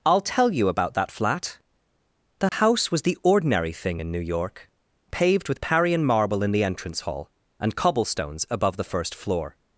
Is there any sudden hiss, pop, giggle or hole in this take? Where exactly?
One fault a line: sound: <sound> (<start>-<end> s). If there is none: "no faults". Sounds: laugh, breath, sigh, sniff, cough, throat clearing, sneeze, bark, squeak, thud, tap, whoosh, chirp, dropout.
sound: dropout (2.5-2.5 s)